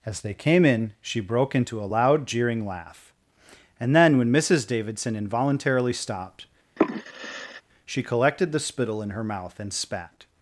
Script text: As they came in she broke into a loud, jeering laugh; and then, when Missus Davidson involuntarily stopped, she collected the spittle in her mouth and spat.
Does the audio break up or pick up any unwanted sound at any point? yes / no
yes